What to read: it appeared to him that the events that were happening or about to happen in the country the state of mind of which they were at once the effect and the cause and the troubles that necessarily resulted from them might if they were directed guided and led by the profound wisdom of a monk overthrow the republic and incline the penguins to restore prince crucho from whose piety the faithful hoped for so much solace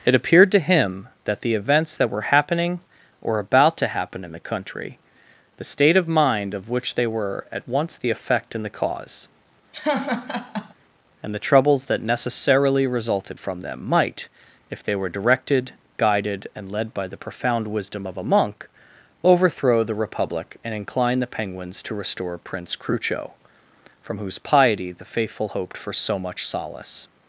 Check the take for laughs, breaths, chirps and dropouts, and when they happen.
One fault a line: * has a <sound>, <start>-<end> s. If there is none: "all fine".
* has a laugh, 9.7-10.7 s